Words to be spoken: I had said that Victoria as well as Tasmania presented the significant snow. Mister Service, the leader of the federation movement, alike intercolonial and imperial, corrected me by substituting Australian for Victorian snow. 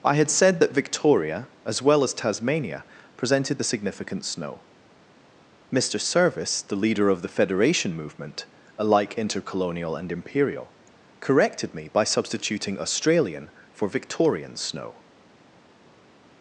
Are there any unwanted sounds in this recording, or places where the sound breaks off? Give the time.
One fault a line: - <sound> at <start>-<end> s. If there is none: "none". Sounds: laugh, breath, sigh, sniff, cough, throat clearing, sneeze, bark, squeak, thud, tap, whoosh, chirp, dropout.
none